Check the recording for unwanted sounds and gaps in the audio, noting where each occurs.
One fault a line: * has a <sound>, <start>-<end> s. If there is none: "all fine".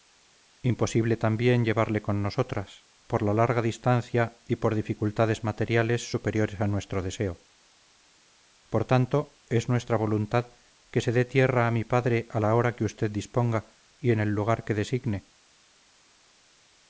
all fine